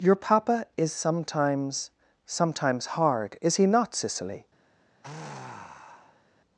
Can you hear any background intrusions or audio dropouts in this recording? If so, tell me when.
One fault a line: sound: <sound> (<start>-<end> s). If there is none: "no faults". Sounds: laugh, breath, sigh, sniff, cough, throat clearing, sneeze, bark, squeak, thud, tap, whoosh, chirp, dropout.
sound: sigh (5.0-6.2 s)